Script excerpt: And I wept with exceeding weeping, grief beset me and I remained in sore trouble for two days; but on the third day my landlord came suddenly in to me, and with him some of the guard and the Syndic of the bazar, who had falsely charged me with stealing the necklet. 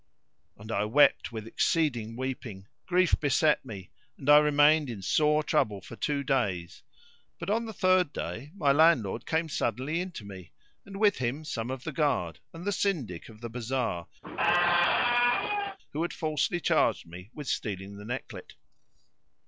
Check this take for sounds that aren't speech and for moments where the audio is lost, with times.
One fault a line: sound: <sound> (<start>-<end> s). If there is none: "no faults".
sound: squeak (14.2-15.8 s)